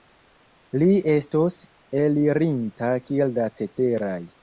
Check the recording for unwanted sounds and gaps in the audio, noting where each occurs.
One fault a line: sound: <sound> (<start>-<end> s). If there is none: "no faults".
no faults